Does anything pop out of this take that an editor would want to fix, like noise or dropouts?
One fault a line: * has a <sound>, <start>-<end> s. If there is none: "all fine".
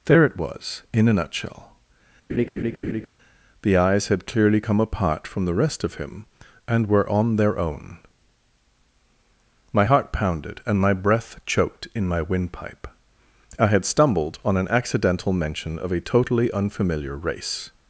* has a laugh, 2.3-3.1 s